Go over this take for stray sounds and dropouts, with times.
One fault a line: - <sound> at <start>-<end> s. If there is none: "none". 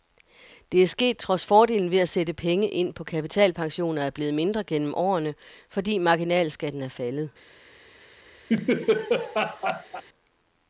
- laugh at 8.5-10.0 s